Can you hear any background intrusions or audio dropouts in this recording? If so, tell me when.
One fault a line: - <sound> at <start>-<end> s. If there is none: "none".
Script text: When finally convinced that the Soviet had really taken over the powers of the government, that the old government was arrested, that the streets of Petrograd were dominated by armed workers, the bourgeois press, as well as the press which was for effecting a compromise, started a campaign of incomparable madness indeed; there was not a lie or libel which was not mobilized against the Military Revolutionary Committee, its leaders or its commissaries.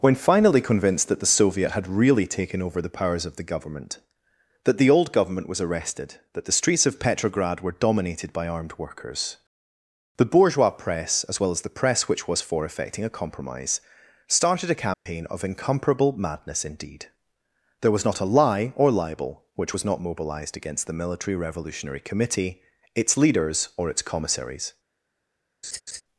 - dropout at 14.9-15.1 s
- laugh at 25.6-26.0 s